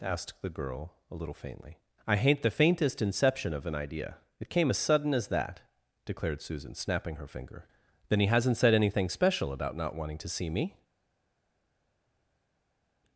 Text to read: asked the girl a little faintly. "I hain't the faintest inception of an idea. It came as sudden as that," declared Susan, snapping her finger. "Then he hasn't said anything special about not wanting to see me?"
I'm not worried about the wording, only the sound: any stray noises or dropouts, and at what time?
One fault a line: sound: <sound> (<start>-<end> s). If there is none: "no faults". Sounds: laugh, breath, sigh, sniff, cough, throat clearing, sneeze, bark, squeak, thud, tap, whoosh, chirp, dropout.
no faults